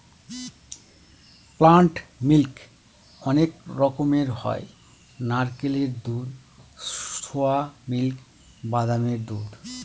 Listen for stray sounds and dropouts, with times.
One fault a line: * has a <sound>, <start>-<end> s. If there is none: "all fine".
all fine